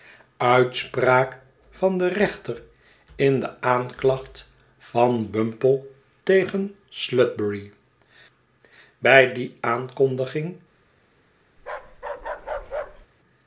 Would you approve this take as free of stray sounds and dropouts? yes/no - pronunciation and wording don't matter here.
no